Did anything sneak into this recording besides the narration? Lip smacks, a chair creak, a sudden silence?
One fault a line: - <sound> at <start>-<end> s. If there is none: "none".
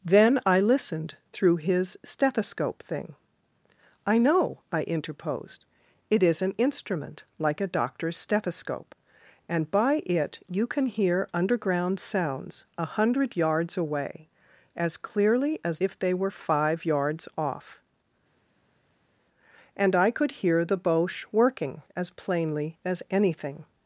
none